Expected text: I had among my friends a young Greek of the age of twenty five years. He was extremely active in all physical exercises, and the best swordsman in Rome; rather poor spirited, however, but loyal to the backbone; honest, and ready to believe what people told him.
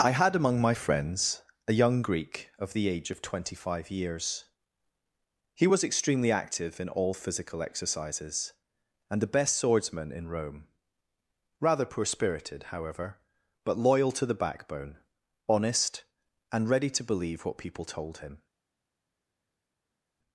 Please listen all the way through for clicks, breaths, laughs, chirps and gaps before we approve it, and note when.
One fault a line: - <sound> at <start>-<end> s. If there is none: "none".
none